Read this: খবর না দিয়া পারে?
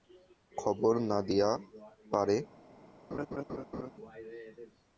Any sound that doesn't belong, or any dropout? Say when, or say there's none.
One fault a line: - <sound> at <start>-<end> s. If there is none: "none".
- laugh at 3.1-3.9 s